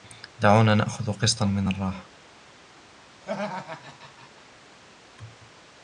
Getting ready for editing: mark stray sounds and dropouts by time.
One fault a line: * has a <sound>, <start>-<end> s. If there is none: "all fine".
* has a laugh, 3.2-4.5 s